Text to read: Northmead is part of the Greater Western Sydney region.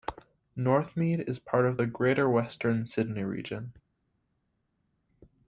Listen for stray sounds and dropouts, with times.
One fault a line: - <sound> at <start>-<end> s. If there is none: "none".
none